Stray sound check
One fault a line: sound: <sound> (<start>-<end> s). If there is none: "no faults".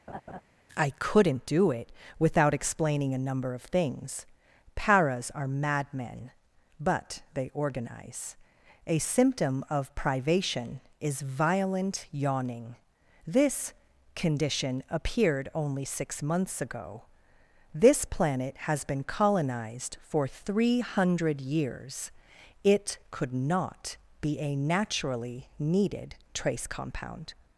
sound: laugh (0.1-0.4 s)